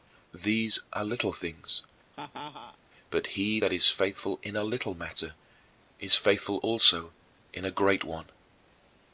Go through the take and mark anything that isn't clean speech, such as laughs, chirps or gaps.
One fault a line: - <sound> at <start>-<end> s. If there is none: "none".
- laugh at 2.1-2.8 s